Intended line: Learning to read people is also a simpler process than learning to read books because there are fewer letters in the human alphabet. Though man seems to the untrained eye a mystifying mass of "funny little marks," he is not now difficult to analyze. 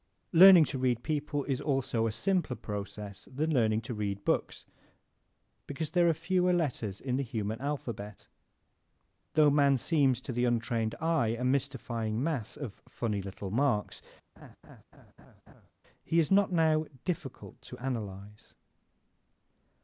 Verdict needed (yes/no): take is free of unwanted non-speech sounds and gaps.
no